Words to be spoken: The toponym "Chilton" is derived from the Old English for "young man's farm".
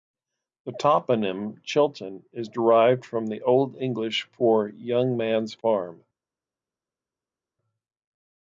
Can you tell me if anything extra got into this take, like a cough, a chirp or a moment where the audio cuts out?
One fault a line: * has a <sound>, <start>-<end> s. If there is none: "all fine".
all fine